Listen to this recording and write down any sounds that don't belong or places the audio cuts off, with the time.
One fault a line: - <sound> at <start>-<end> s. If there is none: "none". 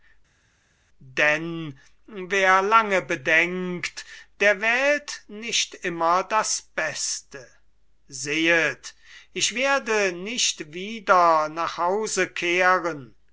none